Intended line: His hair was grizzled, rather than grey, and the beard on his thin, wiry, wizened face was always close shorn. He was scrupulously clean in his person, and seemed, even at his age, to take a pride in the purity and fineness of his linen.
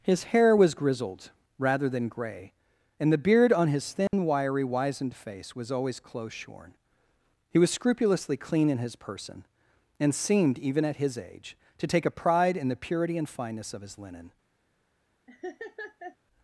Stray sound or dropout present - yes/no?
yes